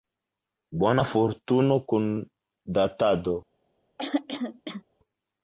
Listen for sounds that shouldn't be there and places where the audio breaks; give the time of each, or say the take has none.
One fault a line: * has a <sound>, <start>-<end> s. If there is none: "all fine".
* has a throat clearing, 4.0-4.8 s